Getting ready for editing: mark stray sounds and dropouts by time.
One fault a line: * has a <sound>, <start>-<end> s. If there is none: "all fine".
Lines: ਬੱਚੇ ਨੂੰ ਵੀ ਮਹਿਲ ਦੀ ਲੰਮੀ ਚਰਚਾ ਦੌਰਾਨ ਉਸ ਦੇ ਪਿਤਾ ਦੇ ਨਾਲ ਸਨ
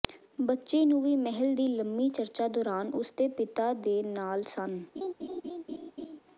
* has a laugh, 5.0-6.2 s